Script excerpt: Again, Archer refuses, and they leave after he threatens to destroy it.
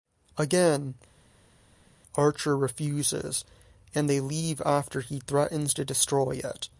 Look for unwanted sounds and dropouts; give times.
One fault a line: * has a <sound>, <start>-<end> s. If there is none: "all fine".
all fine